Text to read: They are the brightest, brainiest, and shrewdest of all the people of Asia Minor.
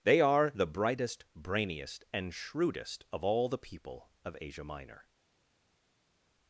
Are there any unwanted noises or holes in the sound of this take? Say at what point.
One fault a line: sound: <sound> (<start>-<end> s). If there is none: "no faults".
no faults